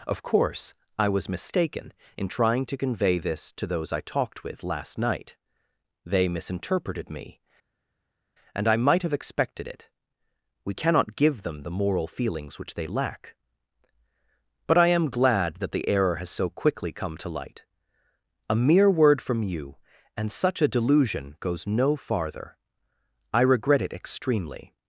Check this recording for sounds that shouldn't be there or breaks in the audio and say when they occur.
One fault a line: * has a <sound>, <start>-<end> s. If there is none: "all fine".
all fine